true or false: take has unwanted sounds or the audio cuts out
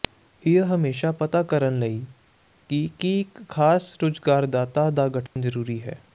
true